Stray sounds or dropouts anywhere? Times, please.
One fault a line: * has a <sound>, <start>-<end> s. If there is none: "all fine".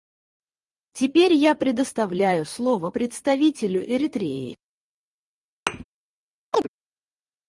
* has a thud, 5.7-5.8 s
* has a chirp, 6.5-6.7 s